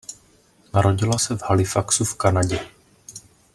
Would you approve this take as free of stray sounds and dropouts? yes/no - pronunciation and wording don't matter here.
yes